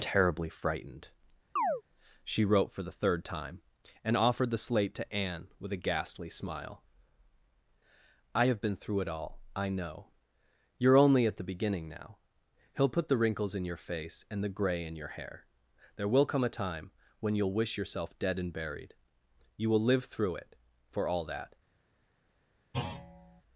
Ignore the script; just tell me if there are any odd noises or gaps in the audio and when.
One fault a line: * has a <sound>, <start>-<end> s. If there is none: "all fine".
* has a chirp, 1.6-1.8 s
* has a thud, 22.7-23.4 s